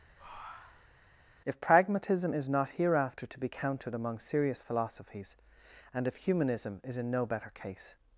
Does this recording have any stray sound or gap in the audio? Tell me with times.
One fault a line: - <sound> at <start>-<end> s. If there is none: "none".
- breath at 0.2-1.0 s